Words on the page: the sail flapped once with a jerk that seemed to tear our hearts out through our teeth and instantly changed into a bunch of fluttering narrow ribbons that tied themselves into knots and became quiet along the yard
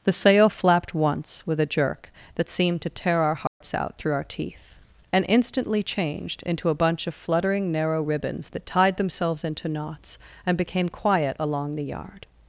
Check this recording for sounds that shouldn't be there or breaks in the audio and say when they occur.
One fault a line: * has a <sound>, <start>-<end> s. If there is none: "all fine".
* has a dropout, 3.5-3.6 s